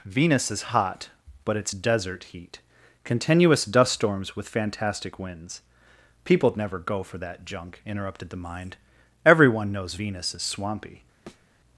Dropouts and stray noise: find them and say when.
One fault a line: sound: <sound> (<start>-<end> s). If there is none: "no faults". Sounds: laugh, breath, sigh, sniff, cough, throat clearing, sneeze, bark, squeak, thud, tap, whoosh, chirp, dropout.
sound: thud (11.3-11.5 s)